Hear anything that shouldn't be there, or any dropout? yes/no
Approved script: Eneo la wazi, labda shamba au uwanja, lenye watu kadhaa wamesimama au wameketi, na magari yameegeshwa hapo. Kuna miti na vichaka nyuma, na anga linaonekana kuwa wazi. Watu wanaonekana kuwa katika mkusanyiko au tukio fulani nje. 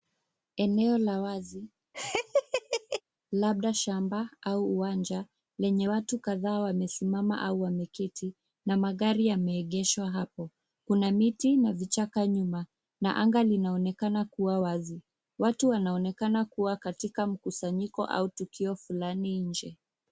yes